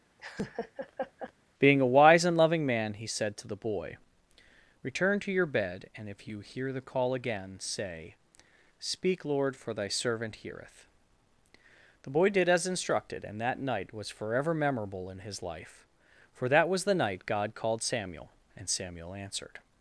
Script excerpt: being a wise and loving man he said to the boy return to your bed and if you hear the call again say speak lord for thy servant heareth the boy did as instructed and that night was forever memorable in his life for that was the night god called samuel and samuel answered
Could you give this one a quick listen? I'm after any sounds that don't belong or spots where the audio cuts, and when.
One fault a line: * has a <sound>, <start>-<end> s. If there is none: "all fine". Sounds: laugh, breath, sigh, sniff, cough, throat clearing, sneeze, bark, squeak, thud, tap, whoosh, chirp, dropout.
* has a laugh, 0.2-1.3 s